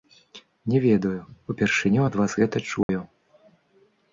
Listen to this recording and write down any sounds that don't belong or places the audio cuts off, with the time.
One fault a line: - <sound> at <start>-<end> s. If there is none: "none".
- dropout at 2.8-2.9 s